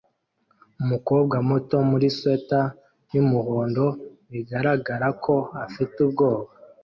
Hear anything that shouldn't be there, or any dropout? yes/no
no